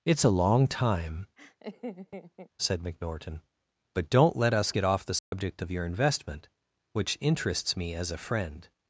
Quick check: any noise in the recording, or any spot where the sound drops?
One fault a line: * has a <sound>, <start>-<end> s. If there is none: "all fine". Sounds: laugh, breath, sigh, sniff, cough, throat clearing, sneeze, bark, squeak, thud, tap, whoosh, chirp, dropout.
* has a laugh, 1.4-2.5 s
* has a dropout, 5.2-5.3 s